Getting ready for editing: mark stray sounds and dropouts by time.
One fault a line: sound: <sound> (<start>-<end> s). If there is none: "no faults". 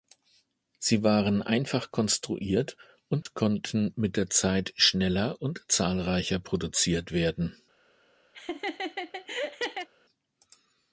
sound: dropout (3.2-3.3 s)
sound: laugh (8.3-9.9 s)